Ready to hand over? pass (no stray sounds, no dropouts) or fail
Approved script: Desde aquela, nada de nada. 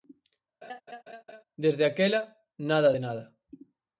fail